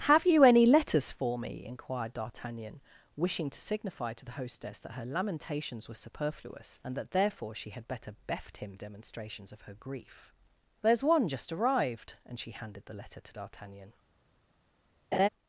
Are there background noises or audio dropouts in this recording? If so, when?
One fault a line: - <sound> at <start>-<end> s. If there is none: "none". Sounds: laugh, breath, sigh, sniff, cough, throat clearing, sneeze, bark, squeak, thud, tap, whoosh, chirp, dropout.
- laugh at 15.1-15.3 s